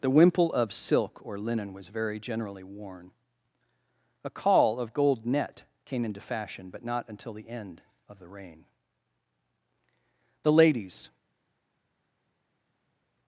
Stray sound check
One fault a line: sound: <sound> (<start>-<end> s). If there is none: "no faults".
no faults